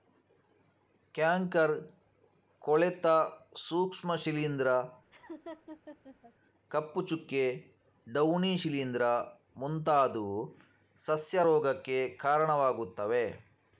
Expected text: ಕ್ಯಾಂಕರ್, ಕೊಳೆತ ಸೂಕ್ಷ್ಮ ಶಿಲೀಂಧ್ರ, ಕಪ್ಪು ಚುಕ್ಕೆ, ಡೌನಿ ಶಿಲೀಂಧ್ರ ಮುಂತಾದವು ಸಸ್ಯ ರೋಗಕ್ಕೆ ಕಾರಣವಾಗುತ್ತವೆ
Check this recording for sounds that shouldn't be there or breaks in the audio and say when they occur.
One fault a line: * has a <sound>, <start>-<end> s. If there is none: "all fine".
* has a laugh, 5.1-6.3 s